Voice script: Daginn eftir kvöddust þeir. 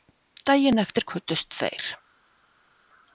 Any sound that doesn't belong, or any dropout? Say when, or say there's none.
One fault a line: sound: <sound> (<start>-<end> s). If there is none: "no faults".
no faults